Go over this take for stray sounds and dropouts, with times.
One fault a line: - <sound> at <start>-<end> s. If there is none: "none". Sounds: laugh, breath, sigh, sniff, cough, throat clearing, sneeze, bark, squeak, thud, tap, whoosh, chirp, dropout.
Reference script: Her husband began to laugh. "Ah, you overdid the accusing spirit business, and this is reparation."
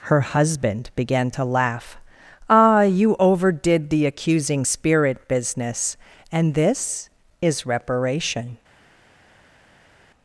none